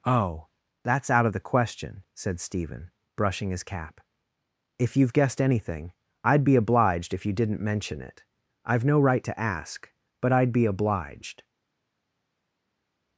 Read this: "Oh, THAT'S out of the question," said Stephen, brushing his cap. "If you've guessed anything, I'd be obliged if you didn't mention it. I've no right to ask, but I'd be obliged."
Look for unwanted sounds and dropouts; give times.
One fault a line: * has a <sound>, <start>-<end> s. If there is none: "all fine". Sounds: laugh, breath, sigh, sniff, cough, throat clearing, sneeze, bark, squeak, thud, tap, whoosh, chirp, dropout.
all fine